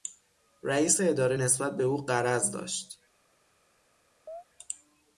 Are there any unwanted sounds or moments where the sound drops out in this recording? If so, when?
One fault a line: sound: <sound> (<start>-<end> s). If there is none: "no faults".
sound: chirp (4.3-4.4 s)